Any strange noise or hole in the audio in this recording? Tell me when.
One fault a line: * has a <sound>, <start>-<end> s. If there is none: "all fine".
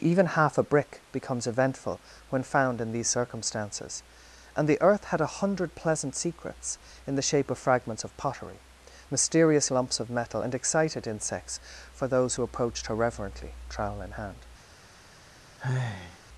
* has a sigh, 15.6-16.2 s